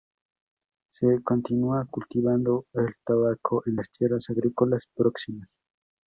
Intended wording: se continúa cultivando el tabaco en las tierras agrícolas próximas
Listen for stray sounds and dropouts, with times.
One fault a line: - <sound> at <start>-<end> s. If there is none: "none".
none